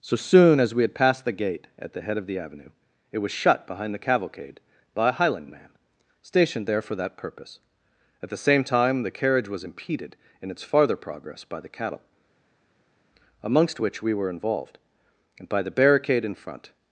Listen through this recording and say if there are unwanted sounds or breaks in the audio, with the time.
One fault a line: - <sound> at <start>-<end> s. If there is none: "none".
none